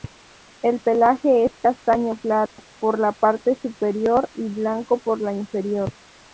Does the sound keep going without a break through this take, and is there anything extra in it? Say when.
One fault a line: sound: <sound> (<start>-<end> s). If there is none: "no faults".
sound: dropout (2.5-2.6 s)